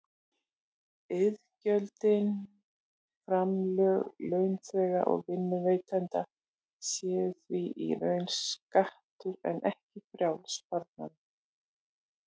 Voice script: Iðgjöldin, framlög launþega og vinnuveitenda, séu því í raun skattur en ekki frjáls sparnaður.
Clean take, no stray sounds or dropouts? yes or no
yes